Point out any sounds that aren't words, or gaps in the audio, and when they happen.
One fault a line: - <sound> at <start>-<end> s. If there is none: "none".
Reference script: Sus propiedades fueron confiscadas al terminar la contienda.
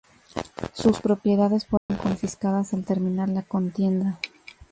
- dropout at 1.8-1.9 s